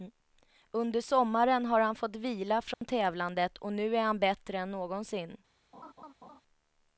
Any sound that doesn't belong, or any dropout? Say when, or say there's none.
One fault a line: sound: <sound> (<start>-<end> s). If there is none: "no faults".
sound: dropout (2.7-2.8 s)
sound: laugh (5.7-6.4 s)